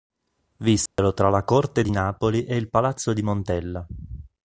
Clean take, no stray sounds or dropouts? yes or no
no